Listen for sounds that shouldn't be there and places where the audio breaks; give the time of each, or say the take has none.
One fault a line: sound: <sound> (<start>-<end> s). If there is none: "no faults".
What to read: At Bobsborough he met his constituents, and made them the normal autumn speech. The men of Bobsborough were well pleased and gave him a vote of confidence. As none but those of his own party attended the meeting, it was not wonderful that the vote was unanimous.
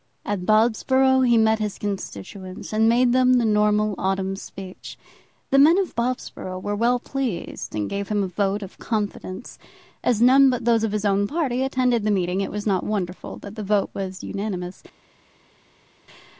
no faults